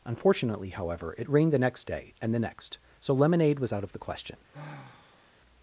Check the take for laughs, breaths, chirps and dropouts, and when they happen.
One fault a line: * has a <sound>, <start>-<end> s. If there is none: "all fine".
* has a sigh, 4.5-5.4 s